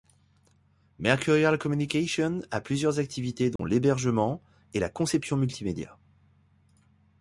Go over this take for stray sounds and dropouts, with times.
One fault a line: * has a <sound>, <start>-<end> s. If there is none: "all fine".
* has a dropout, 3.6-3.6 s